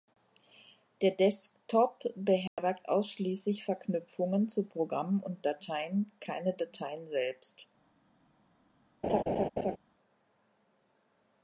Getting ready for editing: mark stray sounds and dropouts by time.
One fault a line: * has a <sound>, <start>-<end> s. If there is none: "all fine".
* has a dropout, 2.5-2.6 s
* has a laugh, 9.0-9.8 s